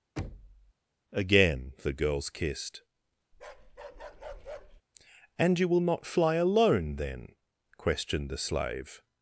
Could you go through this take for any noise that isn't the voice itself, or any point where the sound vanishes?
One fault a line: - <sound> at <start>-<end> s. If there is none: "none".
- thud at 0.2-0.7 s
- bark at 3.3-4.8 s